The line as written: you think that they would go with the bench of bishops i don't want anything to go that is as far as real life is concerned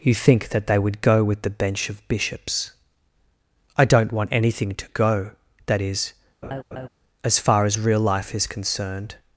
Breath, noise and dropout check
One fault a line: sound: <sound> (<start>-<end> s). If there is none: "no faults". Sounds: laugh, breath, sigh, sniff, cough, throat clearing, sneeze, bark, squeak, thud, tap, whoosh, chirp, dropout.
sound: laugh (6.4-6.9 s)